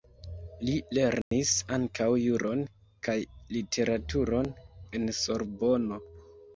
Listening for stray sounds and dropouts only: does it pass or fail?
fail